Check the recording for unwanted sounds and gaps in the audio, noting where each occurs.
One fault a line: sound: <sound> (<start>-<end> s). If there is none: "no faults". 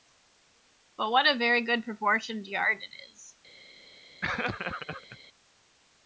sound: laugh (4.2-5.2 s)